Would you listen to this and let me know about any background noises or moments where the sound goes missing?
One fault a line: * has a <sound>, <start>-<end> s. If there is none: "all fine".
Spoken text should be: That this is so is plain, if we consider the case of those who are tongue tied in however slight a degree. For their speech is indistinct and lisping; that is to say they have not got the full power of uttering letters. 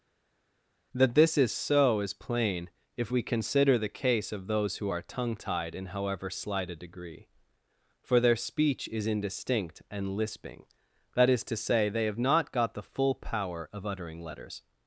all fine